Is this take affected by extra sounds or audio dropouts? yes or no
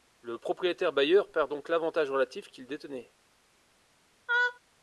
yes